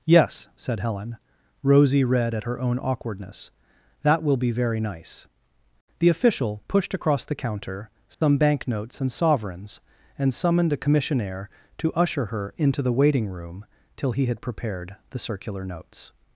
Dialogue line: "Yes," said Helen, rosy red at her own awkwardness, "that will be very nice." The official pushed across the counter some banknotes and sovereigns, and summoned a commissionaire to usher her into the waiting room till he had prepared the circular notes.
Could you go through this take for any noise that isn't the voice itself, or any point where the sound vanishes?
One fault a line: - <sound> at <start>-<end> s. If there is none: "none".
- dropout at 8.1-8.2 s